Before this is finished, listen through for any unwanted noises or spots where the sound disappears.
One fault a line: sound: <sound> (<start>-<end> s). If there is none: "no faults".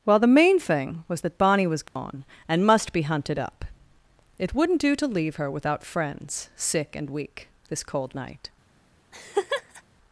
sound: dropout (1.9-2.0 s)
sound: laugh (9.1-9.8 s)